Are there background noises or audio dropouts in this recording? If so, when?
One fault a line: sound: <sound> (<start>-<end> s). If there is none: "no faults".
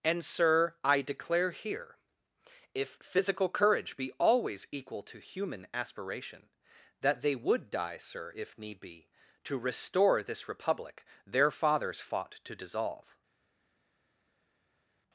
no faults